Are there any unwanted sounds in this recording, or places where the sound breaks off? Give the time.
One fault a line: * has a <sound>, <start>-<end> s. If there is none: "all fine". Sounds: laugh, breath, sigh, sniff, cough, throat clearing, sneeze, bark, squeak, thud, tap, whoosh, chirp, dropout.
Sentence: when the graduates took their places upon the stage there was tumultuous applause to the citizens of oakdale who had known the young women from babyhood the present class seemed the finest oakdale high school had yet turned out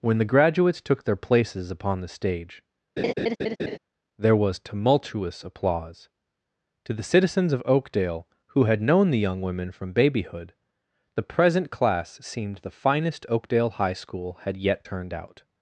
* has a laugh, 3.0-3.8 s